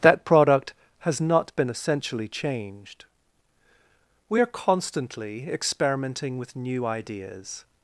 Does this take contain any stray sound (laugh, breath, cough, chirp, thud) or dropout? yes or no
no